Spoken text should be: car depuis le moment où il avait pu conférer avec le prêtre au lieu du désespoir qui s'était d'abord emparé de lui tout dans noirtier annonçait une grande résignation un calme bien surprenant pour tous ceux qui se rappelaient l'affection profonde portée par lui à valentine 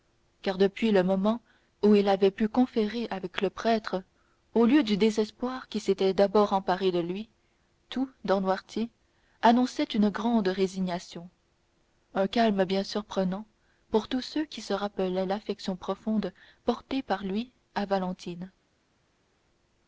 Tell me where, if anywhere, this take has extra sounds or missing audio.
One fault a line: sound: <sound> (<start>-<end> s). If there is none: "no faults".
no faults